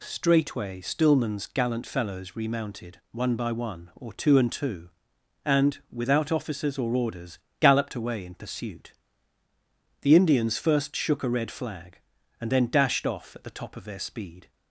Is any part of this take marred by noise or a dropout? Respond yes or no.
no